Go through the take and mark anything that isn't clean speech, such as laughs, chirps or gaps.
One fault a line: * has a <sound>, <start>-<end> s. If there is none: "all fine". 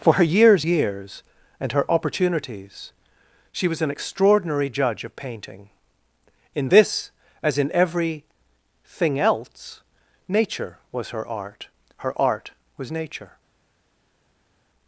all fine